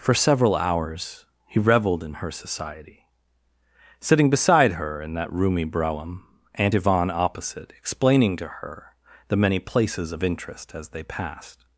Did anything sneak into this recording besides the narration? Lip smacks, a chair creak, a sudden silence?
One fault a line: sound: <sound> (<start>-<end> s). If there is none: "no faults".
no faults